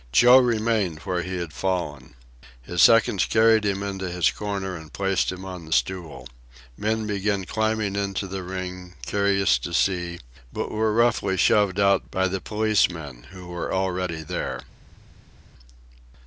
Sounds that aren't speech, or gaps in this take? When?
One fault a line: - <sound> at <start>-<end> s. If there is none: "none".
none